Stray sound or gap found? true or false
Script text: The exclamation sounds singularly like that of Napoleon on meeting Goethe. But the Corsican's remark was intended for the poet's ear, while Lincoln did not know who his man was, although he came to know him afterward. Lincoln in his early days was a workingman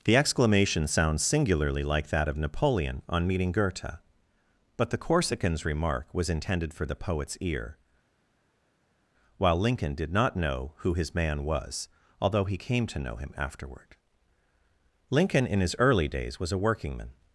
false